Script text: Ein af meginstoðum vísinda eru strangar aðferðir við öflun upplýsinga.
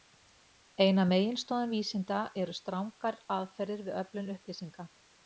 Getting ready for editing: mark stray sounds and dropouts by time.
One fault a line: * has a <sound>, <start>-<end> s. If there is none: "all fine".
all fine